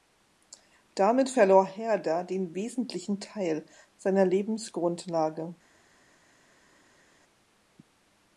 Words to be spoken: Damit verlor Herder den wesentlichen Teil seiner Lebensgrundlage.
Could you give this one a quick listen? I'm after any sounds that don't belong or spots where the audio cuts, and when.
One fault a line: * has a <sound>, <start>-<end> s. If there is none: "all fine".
all fine